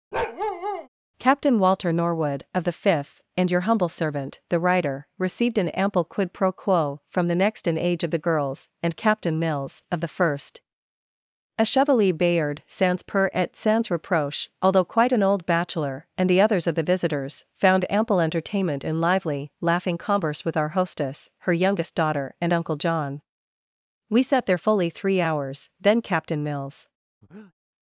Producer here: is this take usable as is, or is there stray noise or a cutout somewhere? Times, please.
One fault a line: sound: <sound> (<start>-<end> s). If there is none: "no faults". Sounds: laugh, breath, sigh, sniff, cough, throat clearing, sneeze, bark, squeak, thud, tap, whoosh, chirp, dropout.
sound: bark (0.1-0.9 s)
sound: breath (27.2-27.5 s)